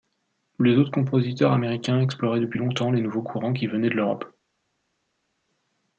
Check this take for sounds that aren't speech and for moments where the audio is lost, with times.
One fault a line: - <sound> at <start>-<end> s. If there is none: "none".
none